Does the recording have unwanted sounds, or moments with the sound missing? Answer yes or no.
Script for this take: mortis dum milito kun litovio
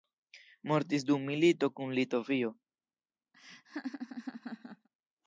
yes